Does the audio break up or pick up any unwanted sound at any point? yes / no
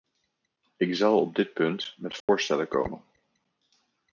yes